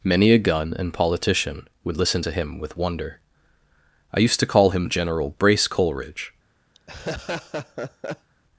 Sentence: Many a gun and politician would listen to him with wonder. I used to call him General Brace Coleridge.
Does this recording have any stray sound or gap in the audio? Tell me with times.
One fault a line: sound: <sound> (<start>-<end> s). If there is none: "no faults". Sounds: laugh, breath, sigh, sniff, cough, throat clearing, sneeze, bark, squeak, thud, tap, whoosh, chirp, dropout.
sound: laugh (6.7-8.3 s)